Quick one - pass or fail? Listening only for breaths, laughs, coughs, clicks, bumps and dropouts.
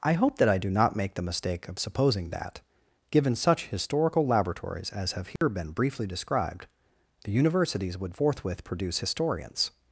fail